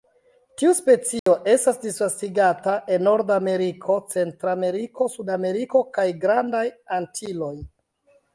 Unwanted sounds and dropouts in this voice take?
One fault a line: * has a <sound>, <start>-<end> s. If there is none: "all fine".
* has a dropout, 1.2-1.3 s